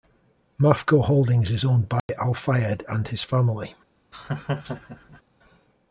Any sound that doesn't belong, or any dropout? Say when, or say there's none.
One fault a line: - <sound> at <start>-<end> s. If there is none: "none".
- dropout at 2.0-2.1 s
- laugh at 4.1-5.2 s